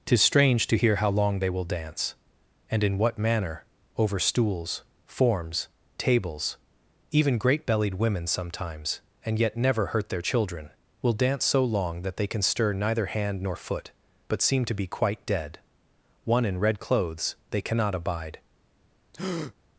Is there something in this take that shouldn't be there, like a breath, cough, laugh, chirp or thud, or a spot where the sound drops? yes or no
yes